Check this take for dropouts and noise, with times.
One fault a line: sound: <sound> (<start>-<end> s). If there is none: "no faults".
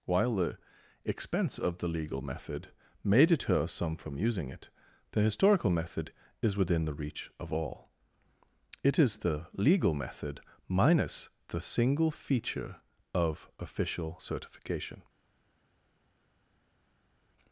no faults